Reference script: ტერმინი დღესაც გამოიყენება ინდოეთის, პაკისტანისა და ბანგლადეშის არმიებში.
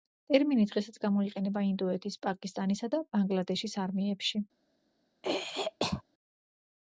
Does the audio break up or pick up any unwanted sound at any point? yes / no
yes